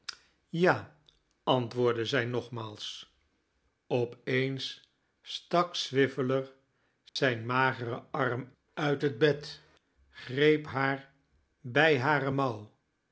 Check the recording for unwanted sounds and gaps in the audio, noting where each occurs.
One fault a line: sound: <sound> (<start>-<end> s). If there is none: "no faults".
sound: dropout (7.1-7.2 s)